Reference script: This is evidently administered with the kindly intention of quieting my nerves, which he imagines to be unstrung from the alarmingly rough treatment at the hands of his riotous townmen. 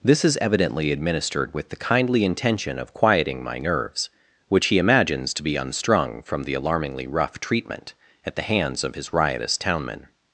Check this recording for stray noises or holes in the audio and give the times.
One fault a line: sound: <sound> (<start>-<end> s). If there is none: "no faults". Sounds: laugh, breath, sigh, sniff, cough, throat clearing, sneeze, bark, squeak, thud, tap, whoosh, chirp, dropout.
no faults